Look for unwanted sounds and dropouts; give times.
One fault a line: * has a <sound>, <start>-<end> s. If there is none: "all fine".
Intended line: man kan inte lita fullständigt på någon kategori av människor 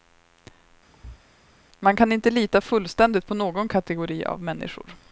* has a thud, 0.9-1.2 s